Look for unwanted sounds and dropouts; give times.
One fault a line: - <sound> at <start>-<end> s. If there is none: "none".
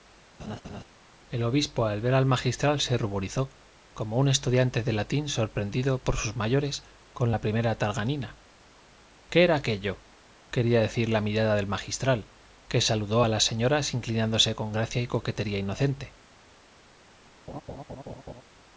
- laugh at 0.4-0.8 s
- laugh at 17.5-18.4 s